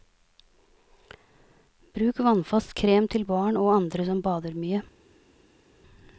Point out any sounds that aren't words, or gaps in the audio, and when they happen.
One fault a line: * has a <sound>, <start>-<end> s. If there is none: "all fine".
all fine